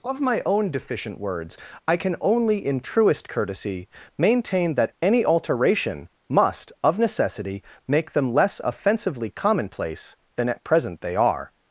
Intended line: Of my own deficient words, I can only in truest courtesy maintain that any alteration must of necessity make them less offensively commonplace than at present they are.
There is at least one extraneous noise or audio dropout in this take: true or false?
false